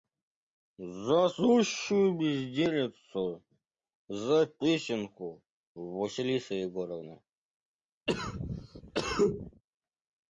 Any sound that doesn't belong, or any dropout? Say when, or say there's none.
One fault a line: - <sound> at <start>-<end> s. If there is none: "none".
- cough at 8.1-9.6 s